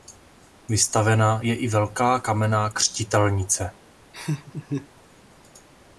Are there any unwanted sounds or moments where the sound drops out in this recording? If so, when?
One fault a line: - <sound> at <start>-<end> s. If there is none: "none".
- laugh at 4.1-4.9 s